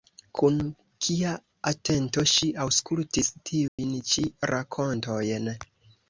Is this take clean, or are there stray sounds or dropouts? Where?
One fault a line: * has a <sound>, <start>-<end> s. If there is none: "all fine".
* has a dropout, 3.7-3.8 s